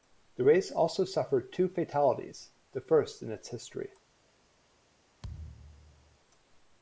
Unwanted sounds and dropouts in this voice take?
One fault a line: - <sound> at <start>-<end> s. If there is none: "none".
- thud at 5.2-6.2 s